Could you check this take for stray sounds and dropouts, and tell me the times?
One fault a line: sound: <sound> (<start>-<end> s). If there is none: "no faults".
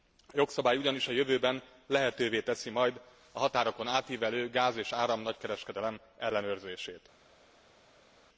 no faults